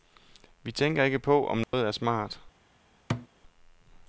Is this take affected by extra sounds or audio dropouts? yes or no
yes